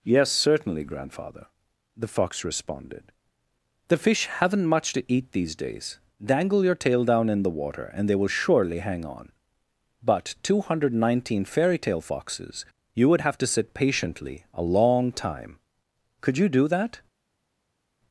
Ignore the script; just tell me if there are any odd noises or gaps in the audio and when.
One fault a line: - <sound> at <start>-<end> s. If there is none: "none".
none